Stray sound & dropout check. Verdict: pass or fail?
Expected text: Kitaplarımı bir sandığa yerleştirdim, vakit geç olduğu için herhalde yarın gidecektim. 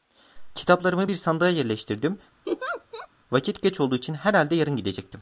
fail